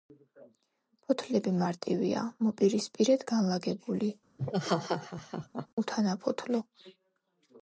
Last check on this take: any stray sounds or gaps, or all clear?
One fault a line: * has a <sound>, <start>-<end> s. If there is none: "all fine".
* has a laugh, 4.4-5.7 s